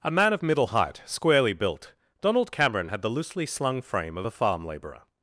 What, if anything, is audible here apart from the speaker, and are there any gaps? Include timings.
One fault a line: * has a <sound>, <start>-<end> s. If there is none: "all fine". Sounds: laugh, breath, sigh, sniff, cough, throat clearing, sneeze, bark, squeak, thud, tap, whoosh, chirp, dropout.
all fine